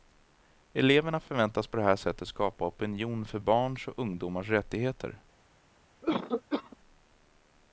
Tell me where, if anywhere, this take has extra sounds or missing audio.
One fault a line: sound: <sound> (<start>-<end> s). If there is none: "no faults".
sound: cough (6.0-6.8 s)